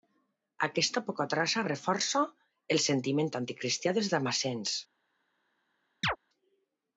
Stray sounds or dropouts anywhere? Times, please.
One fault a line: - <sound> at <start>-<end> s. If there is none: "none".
- chirp at 6.0-6.2 s